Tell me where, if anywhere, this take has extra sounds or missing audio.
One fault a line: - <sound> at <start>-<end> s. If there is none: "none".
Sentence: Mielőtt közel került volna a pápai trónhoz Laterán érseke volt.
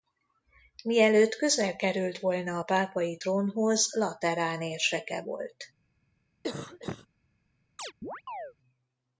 - cough at 6.4-7.1 s
- chirp at 7.8-8.5 s